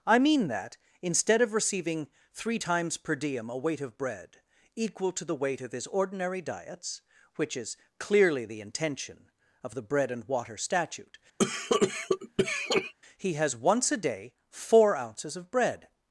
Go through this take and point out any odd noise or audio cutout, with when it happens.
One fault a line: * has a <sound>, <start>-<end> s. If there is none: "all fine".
* has a cough, 11.4-12.9 s